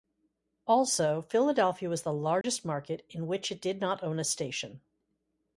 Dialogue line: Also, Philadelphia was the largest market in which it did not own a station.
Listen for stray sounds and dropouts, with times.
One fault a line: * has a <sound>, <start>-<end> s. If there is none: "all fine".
* has a dropout, 2.4-2.4 s